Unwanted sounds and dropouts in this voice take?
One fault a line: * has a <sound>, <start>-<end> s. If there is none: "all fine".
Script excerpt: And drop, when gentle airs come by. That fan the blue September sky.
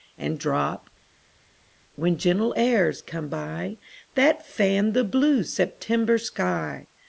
all fine